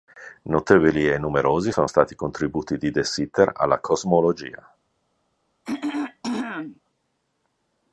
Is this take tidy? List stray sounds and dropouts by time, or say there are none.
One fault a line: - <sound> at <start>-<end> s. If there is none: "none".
- throat clearing at 5.6-6.8 s